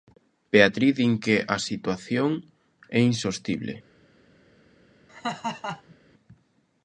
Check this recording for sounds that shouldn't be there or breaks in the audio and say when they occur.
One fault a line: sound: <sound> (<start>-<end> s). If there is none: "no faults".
sound: laugh (5.1-5.9 s)